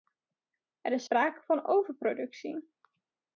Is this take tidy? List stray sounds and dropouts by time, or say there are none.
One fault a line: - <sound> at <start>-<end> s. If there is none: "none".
none